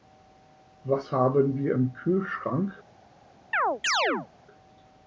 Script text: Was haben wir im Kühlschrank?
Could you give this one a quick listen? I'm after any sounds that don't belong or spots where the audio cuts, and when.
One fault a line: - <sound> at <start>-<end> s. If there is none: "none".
- chirp at 3.5-4.3 s